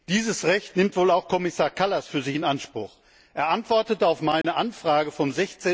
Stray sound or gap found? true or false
true